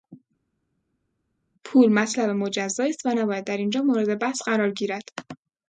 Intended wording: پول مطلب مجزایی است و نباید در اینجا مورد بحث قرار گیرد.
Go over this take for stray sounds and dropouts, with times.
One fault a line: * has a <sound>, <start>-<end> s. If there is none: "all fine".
all fine